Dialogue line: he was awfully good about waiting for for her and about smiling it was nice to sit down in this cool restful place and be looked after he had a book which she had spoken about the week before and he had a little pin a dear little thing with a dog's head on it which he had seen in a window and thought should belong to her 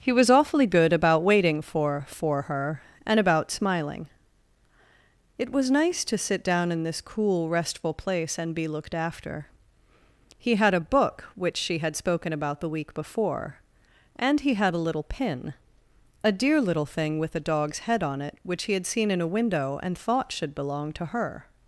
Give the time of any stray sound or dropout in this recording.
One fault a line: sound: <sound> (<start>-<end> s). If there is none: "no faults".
no faults